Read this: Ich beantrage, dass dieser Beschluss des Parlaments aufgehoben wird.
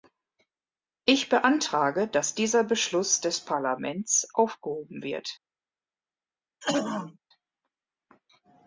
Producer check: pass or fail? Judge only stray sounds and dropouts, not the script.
fail